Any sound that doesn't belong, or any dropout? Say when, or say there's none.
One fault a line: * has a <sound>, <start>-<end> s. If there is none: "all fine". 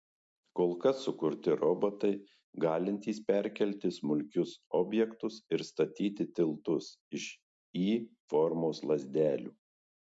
all fine